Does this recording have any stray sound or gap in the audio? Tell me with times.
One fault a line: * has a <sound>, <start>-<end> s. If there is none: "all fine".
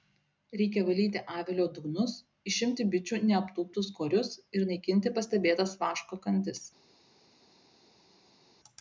all fine